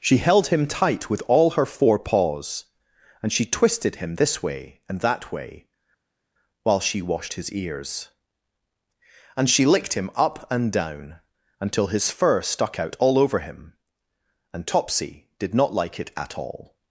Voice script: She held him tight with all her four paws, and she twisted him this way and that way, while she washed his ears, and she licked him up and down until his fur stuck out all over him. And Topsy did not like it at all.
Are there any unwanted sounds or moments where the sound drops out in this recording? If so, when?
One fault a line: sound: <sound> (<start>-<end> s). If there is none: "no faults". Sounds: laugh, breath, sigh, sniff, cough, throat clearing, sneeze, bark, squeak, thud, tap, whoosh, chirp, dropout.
no faults